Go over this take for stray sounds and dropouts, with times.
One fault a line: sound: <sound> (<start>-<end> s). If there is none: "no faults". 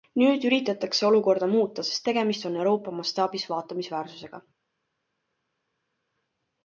no faults